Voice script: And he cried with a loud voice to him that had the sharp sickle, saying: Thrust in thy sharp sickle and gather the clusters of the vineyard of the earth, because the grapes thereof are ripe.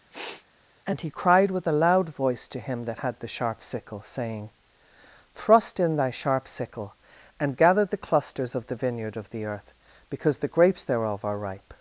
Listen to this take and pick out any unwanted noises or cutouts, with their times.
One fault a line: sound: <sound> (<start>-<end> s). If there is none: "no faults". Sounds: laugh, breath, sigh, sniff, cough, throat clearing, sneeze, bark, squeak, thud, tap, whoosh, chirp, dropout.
sound: sniff (0.1-0.5 s)